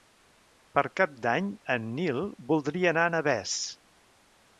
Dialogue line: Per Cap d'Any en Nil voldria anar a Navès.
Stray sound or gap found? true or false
false